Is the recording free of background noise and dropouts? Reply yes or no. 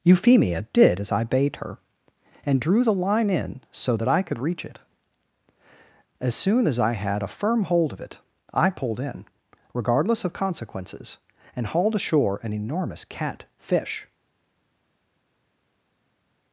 yes